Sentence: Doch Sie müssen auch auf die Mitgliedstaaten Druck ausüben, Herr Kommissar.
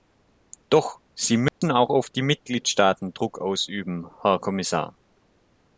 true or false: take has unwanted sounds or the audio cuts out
true